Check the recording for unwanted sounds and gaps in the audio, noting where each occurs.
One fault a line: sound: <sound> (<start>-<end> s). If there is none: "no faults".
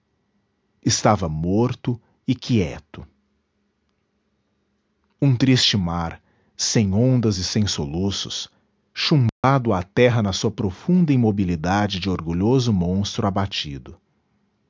sound: dropout (9.3-9.4 s)